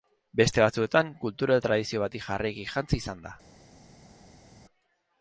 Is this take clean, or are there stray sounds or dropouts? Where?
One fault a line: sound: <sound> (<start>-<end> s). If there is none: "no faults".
no faults